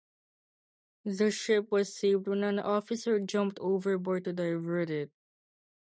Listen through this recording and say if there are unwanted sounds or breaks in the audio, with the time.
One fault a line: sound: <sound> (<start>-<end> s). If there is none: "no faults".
no faults